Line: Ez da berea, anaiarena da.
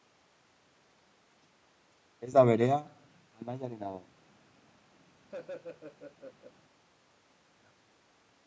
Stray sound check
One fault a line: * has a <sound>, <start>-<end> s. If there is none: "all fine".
* has a laugh, 5.3-6.5 s